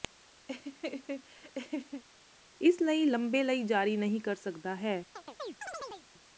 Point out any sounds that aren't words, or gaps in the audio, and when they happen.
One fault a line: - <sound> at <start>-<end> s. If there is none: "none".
- laugh at 0.5-2.0 s
- chirp at 5.2-6.1 s